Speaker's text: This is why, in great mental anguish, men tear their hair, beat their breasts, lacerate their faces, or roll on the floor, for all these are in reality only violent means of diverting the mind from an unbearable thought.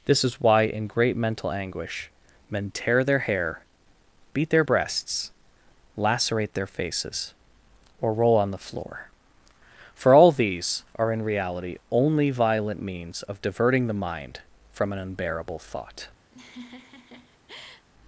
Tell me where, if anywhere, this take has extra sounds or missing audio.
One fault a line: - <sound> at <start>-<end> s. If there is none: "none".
- laugh at 16.3-17.9 s